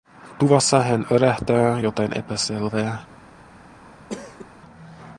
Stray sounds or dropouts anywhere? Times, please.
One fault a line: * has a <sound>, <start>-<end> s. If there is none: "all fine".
* has a cough, 4.1-4.5 s